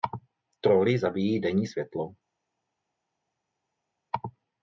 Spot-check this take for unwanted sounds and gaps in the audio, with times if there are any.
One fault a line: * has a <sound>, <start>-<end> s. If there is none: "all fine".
all fine